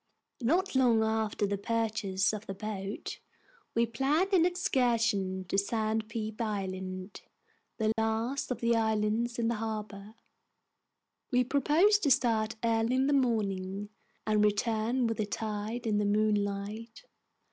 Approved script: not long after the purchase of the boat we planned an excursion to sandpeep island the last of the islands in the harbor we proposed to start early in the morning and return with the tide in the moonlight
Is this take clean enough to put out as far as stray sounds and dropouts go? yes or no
no